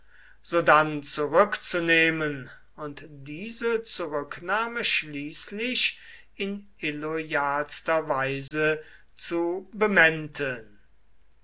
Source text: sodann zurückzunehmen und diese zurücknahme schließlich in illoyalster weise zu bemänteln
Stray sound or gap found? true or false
true